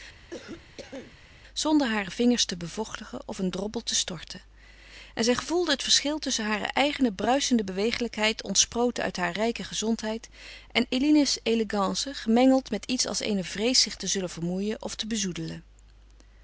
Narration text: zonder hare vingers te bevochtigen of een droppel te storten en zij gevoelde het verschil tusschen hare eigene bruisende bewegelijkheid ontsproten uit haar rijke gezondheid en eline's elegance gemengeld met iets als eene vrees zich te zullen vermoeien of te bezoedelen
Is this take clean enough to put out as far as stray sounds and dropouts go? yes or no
no